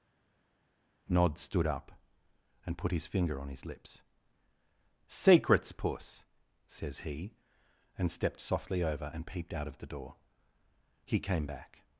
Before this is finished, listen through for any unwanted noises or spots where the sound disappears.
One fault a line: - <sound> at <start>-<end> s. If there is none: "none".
none